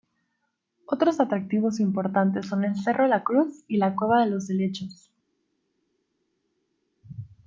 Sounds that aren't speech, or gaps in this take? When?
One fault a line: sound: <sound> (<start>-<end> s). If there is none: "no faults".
no faults